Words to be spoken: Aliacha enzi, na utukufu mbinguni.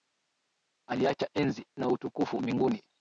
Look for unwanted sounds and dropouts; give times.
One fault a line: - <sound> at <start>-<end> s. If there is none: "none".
none